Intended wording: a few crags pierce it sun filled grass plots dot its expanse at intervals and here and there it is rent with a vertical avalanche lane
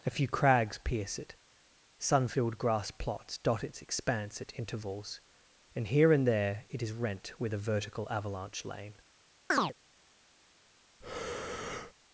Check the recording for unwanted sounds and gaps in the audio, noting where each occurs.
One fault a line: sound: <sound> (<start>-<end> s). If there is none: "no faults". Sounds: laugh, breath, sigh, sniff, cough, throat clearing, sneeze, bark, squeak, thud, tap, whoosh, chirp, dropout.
sound: chirp (9.5-9.7 s)
sound: breath (11.0-11.9 s)